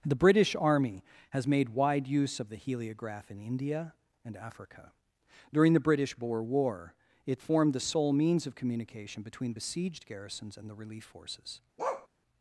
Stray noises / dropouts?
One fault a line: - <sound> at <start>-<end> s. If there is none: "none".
- bark at 11.8-12.1 s